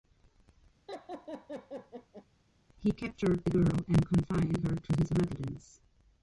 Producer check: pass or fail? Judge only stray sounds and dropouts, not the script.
fail